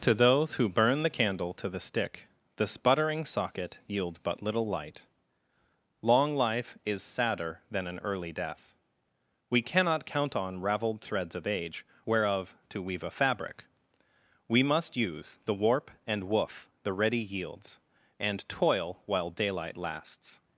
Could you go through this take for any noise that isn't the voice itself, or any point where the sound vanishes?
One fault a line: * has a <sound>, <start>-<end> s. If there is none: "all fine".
all fine